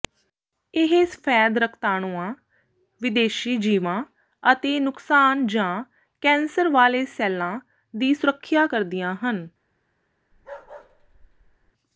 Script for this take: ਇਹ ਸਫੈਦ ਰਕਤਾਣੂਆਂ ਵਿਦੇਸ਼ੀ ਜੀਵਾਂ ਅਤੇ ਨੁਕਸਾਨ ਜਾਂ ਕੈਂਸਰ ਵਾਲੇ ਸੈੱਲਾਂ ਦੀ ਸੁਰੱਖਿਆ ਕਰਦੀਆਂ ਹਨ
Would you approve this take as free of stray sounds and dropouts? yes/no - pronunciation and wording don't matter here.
no